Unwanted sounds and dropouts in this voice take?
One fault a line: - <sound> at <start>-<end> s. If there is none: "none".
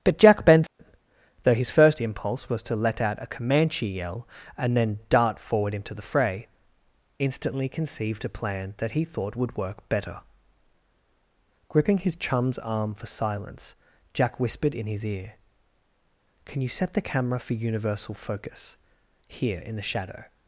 - dropout at 0.7-0.8 s